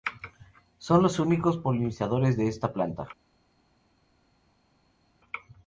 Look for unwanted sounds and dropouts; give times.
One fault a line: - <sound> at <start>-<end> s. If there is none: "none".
none